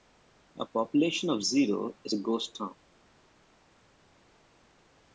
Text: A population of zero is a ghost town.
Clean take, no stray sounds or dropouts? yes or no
yes